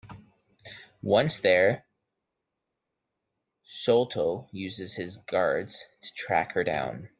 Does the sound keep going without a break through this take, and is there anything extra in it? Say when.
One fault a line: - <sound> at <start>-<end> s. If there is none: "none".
none